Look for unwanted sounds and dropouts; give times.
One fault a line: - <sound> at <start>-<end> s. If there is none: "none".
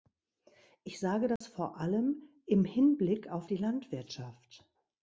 - dropout at 1.4-1.4 s